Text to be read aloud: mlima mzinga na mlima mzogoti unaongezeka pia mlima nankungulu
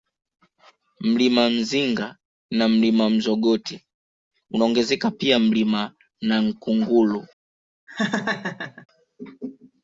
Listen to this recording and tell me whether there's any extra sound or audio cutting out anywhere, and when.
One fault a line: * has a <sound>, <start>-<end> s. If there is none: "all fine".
* has a laugh, 7.9-8.9 s